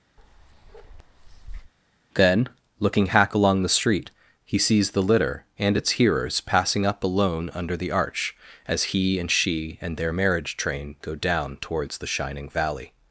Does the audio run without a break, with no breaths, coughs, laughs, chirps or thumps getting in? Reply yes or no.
no